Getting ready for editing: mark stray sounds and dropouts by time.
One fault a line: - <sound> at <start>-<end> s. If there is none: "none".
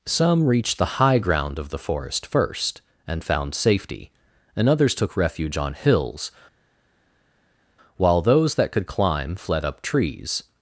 none